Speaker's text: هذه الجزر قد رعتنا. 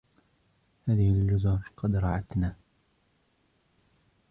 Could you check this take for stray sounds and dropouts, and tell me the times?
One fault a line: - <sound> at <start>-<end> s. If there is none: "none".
none